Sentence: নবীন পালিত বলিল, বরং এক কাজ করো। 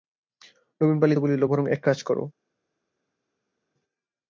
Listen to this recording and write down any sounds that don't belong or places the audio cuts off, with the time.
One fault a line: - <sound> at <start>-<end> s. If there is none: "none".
none